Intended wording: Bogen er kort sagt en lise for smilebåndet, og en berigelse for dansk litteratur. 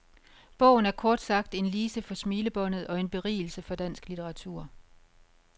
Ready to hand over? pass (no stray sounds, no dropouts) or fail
pass